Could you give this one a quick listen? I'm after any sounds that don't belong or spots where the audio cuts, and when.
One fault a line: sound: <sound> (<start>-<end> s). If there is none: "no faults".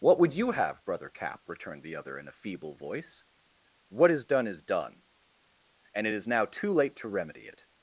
no faults